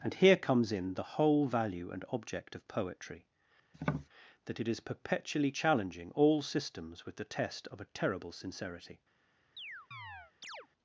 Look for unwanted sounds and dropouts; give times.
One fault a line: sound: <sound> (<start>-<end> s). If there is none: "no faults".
sound: tap (3.7-4.1 s)
sound: chirp (9.6-10.7 s)